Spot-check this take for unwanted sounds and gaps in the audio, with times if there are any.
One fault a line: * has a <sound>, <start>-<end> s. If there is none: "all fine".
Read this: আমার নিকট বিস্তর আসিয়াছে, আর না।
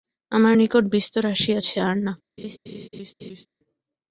* has a laugh, 2.4-3.5 s